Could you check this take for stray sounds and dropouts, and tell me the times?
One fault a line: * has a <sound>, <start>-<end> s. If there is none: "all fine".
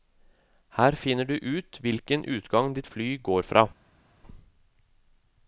all fine